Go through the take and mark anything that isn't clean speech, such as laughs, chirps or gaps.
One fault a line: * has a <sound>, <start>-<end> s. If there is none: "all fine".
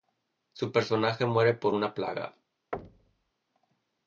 * has a thud, 2.7-3.3 s